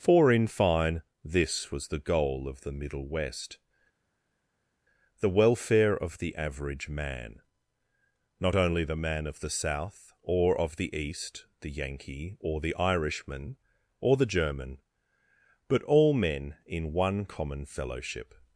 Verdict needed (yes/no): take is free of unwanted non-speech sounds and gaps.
yes